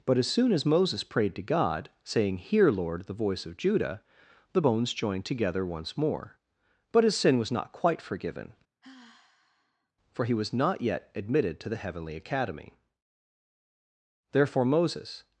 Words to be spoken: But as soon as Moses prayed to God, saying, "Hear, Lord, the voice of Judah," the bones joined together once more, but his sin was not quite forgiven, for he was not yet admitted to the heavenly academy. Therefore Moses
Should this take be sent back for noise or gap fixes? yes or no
yes